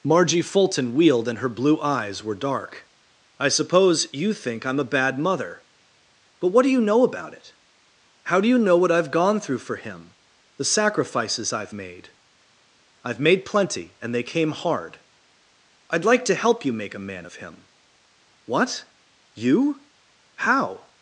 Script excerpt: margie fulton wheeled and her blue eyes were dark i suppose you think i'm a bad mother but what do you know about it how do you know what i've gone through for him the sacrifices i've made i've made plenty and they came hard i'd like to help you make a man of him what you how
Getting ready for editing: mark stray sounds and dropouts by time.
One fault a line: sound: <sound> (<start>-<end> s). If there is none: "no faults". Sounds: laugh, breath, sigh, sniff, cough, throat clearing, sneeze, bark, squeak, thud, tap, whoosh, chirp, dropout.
no faults